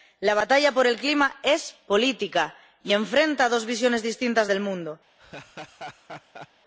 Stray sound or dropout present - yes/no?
yes